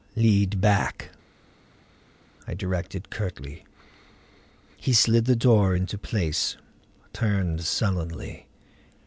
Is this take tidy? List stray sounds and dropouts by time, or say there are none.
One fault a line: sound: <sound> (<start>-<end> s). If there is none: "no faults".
no faults